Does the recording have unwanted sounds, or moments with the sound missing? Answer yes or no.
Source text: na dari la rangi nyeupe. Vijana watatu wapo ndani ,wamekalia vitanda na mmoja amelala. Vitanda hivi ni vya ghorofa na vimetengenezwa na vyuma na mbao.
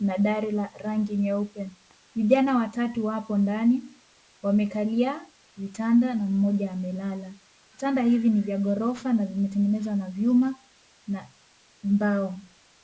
no